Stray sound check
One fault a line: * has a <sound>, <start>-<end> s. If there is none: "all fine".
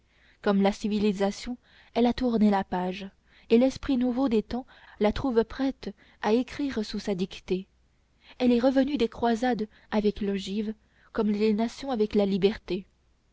all fine